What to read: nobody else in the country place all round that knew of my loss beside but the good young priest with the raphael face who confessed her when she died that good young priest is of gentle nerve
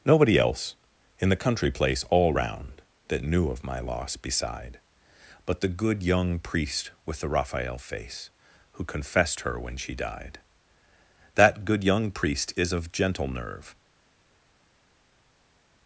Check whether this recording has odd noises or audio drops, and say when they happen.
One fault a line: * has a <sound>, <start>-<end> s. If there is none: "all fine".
all fine